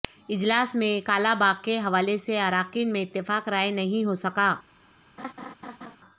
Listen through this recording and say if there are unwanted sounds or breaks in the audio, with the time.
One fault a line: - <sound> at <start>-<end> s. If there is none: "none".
- laugh at 5.2-6.0 s